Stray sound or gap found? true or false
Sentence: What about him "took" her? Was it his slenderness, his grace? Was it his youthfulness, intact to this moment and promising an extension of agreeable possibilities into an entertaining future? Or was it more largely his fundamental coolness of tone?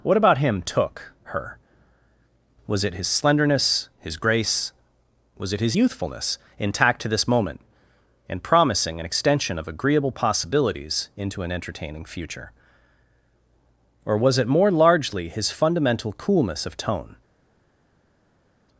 false